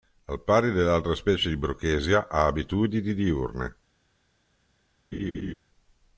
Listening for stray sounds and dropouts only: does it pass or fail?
fail